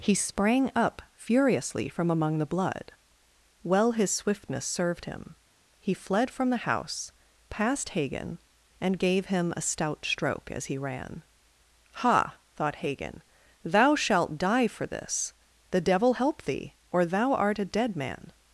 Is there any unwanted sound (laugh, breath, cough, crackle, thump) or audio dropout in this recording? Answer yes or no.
no